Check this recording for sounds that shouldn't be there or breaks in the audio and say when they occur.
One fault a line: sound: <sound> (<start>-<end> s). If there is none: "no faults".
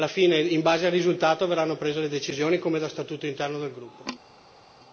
no faults